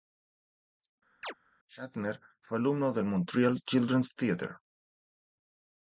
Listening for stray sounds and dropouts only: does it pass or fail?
fail